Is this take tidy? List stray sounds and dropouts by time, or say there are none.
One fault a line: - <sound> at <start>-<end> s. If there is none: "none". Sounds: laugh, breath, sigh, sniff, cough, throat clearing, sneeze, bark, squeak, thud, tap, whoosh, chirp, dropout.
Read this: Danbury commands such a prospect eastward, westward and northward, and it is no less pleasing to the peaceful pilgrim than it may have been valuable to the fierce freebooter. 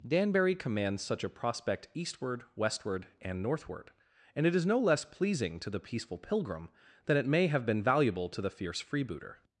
none